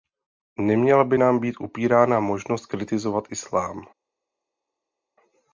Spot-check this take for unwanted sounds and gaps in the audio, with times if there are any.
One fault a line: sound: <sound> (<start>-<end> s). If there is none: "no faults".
no faults